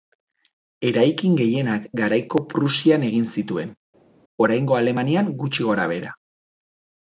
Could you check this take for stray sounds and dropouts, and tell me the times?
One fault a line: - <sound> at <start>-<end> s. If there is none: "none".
none